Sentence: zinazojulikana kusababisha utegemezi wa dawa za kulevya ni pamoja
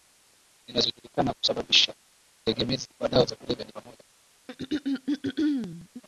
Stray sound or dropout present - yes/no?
yes